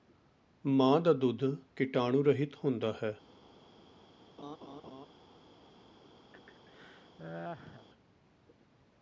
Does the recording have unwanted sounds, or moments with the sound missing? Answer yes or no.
yes